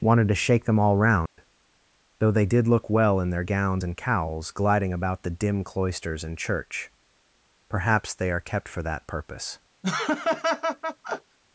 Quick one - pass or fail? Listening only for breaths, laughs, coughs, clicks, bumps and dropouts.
fail